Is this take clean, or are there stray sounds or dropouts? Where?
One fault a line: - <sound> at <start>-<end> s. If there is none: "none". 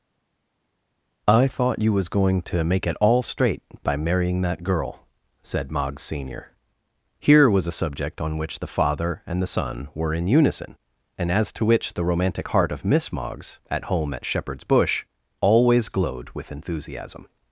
none